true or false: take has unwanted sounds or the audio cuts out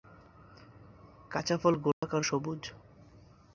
true